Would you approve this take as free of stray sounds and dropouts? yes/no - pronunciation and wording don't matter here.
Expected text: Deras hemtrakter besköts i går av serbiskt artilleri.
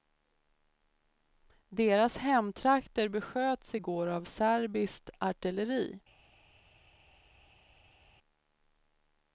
yes